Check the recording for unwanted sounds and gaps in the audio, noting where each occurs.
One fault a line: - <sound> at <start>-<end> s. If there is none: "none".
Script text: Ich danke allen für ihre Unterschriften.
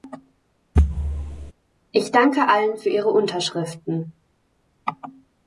- thud at 0.8-1.5 s